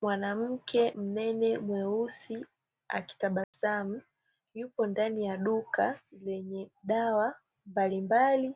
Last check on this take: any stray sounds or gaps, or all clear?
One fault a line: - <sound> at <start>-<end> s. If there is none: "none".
- dropout at 3.4-3.5 s